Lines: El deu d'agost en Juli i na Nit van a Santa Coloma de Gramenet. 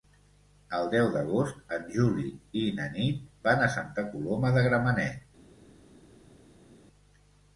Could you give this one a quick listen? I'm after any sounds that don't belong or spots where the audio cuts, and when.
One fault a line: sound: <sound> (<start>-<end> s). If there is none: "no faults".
no faults